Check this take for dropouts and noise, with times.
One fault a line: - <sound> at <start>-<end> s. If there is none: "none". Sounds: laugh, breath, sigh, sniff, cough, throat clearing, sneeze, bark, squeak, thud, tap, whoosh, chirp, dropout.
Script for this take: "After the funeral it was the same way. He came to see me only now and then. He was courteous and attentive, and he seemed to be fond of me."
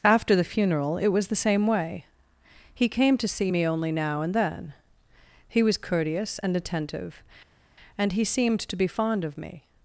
none